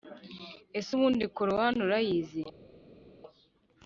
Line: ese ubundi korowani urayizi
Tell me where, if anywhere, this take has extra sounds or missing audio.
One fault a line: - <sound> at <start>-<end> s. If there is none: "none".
none